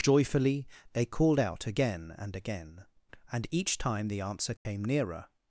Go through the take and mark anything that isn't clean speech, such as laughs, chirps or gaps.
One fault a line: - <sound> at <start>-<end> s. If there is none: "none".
- dropout at 4.6-4.7 s